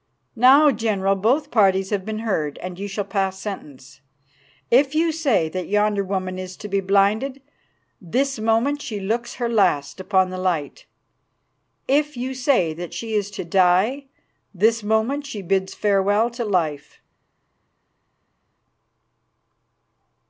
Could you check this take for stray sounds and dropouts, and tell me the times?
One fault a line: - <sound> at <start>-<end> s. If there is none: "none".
none